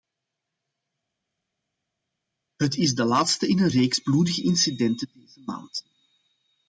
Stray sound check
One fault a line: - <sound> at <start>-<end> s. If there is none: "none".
none